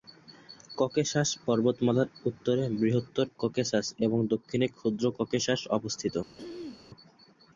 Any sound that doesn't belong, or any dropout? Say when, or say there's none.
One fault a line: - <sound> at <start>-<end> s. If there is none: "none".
- throat clearing at 6.4-6.8 s